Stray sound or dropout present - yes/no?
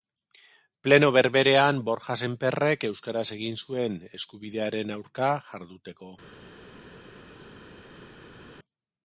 no